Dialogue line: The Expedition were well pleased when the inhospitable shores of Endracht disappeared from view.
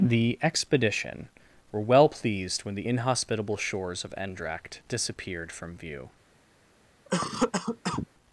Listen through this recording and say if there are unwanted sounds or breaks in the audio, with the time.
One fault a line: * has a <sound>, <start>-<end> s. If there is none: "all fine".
* has a cough, 7.1-8.1 s